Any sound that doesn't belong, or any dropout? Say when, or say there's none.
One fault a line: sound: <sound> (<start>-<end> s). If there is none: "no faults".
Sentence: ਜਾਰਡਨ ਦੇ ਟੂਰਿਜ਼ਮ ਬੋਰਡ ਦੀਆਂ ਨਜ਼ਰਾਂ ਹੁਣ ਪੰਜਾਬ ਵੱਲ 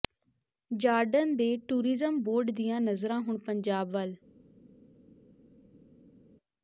no faults